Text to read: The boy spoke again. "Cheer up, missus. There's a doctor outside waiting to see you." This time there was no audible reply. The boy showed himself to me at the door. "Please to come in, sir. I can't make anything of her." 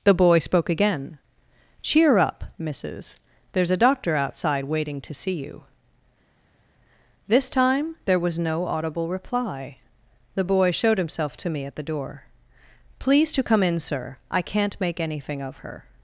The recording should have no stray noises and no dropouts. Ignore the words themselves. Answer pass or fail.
pass